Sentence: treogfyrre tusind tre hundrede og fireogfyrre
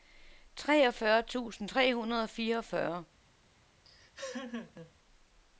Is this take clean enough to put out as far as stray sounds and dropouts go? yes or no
no